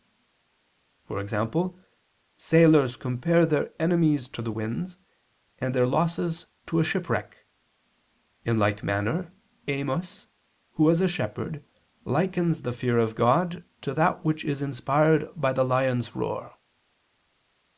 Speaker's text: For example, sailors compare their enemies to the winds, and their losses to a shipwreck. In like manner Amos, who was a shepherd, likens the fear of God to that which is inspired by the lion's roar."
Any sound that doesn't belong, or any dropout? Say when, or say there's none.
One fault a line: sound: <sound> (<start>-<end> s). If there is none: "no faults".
no faults